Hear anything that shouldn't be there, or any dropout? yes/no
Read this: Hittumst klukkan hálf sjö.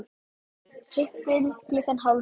no